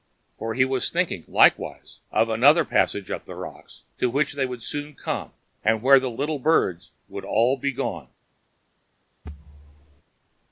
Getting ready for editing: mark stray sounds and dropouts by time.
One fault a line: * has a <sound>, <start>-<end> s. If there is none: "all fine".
* has a thud, 9.2-10.0 s